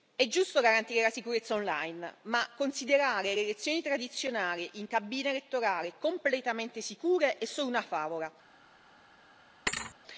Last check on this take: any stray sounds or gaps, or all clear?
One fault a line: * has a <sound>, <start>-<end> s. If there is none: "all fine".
* has a thud, 9.7-10.0 s